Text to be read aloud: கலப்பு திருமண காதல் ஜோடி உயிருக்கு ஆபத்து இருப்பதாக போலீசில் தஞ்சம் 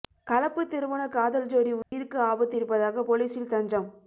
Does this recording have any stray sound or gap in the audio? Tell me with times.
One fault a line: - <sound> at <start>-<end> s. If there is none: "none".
- dropout at 1.8-1.9 s